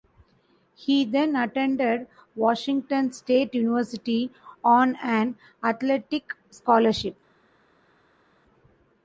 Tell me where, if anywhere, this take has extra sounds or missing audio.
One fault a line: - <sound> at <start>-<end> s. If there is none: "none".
none